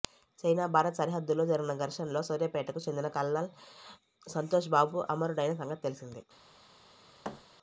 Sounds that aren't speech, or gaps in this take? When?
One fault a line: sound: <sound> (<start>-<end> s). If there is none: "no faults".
sound: thud (7.2-7.4 s)